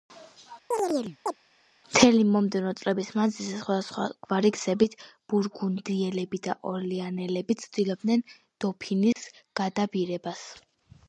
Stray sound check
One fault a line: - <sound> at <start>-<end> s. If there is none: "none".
- chirp at 0.7-1.4 s
- dropout at 9.1-9.2 s